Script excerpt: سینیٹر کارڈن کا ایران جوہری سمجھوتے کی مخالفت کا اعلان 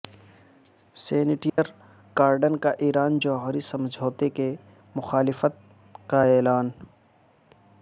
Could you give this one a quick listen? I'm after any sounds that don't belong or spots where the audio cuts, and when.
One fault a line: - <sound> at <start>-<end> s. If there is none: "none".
- dropout at 1.5-1.6 s